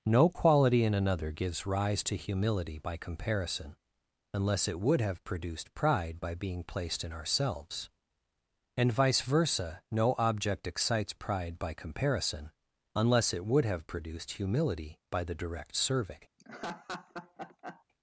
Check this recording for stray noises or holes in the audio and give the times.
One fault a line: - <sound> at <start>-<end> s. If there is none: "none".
- laugh at 16.4-17.8 s